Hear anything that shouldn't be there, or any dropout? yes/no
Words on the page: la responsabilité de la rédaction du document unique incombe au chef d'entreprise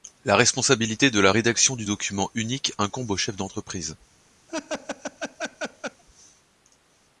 yes